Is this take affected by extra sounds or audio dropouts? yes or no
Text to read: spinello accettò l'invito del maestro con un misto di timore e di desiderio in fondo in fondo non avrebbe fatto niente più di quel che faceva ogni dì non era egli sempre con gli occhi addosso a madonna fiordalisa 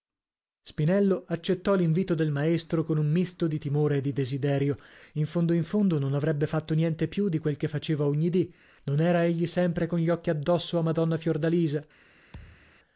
yes